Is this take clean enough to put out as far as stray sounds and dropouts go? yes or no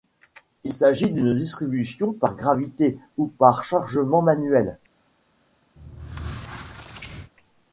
no